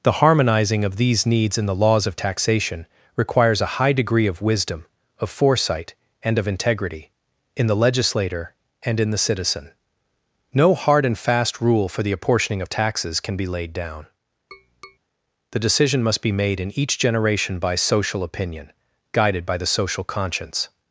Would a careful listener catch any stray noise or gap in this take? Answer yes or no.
yes